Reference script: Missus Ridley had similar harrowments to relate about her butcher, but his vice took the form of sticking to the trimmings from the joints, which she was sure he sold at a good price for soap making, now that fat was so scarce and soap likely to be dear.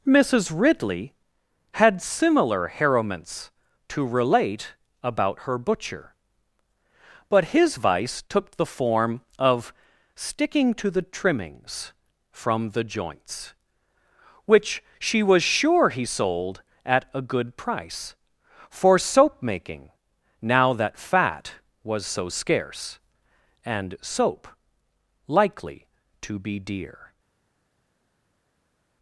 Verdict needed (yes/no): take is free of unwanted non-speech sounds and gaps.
yes